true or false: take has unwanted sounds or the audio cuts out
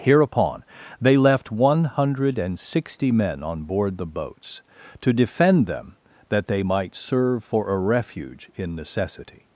false